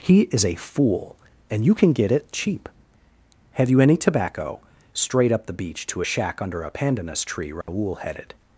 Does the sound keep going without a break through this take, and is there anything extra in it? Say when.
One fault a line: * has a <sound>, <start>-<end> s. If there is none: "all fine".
* has a dropout, 7.6-7.7 s